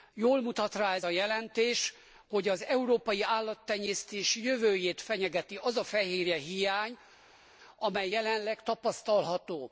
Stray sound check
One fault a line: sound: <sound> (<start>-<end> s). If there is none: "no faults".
no faults